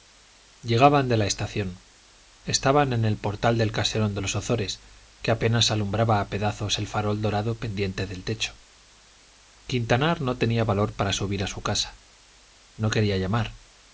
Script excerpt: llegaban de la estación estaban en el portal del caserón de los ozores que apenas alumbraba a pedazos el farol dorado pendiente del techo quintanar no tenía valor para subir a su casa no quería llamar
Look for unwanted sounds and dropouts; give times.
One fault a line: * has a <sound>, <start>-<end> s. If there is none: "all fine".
all fine